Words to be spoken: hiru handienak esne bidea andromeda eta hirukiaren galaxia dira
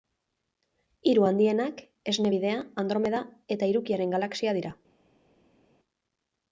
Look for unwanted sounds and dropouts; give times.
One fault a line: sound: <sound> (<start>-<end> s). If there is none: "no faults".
no faults